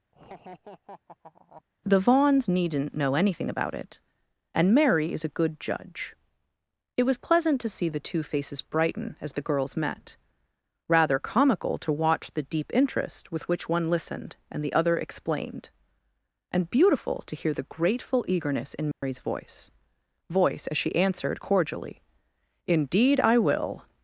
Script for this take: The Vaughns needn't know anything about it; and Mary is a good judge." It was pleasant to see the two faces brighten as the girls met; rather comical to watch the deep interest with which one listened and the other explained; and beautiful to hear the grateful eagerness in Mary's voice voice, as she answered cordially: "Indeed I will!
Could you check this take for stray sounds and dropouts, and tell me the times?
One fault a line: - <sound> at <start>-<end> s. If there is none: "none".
- laugh at 0.1-1.6 s
- dropout at 18.9-19.0 s